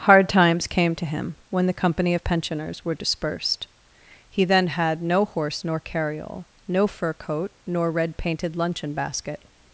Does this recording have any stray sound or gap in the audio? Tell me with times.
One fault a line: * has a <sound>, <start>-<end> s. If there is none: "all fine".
all fine